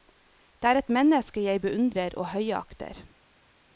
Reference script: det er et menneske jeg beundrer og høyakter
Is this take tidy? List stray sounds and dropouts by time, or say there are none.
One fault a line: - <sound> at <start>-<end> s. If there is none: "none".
none